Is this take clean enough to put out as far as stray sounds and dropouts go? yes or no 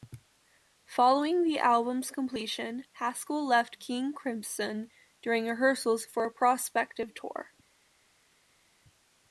yes